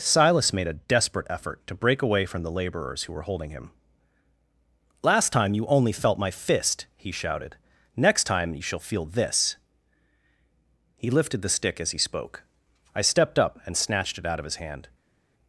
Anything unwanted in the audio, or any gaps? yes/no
no